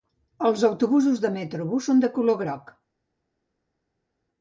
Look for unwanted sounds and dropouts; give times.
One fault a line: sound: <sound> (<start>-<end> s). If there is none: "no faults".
no faults